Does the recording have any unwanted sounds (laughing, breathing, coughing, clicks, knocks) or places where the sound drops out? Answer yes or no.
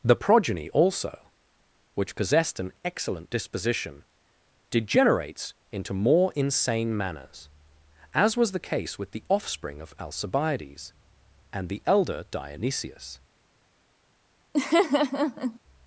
yes